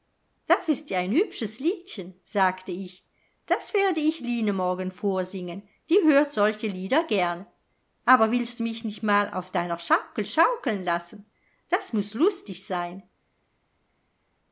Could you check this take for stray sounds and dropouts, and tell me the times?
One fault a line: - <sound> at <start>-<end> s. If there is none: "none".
none